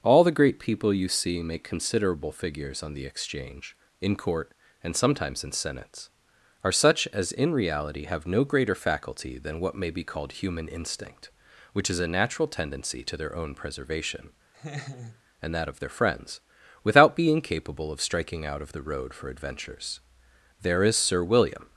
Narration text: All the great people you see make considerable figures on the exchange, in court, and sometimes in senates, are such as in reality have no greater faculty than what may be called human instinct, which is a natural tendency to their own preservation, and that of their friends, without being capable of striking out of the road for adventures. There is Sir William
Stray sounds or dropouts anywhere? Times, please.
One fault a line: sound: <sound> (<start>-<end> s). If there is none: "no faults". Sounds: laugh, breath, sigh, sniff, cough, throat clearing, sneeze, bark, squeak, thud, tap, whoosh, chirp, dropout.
sound: laugh (14.5-15.2 s)